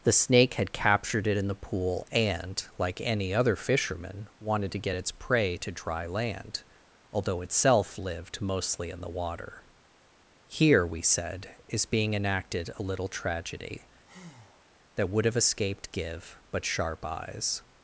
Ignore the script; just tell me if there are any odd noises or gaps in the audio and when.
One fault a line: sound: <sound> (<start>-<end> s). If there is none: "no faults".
sound: breath (14.0-14.7 s)